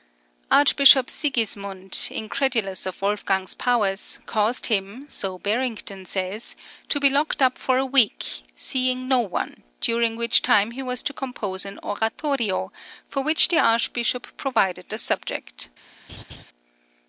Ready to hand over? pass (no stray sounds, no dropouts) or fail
fail